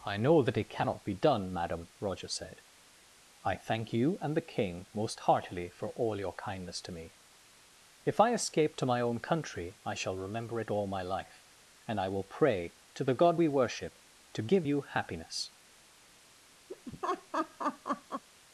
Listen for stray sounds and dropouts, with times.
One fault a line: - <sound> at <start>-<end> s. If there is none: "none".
- laugh at 16.7-18.2 s